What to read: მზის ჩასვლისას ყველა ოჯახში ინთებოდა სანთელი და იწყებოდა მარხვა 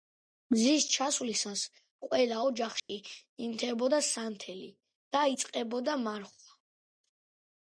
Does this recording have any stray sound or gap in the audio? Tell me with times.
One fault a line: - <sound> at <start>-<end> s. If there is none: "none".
- dropout at 2.8-2.9 s